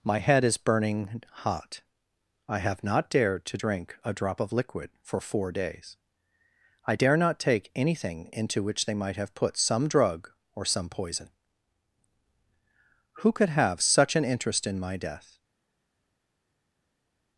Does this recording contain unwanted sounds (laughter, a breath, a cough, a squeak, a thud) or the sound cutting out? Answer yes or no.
no